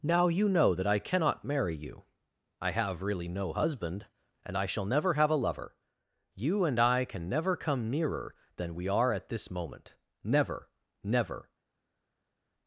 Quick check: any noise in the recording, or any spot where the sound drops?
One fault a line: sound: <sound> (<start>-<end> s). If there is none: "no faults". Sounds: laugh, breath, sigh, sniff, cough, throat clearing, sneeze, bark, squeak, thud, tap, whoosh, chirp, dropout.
no faults